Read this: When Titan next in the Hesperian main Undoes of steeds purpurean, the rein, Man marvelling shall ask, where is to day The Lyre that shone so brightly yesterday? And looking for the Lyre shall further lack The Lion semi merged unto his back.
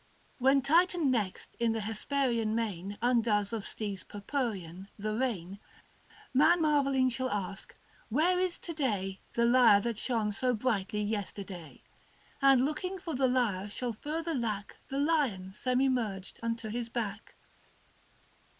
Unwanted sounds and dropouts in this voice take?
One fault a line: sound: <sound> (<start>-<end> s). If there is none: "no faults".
no faults